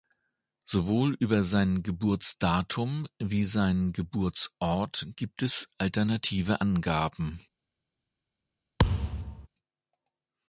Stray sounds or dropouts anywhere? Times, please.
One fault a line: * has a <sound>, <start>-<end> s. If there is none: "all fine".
* has a thud, 8.8-9.5 s